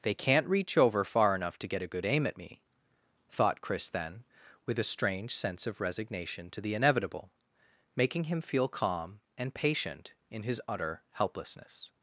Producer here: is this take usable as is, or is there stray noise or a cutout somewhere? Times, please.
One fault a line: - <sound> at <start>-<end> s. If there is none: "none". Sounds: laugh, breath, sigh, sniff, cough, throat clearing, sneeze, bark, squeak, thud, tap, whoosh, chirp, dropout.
none